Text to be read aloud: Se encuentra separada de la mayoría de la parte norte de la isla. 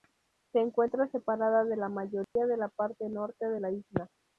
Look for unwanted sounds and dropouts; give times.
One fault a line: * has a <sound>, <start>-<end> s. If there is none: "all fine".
* has a dropout, 2.2-2.4 s